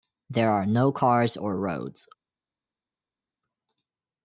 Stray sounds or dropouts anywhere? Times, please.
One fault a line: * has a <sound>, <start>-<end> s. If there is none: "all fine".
all fine